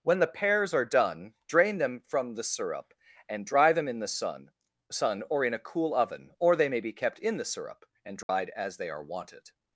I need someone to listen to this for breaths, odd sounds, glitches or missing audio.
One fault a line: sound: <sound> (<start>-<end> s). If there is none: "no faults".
sound: dropout (8.2-8.3 s)